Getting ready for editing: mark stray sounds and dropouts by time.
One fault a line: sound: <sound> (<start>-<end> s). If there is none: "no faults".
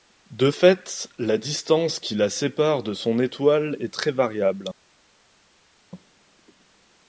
no faults